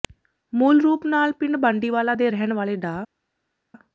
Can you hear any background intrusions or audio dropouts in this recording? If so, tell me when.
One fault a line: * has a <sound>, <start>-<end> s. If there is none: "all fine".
all fine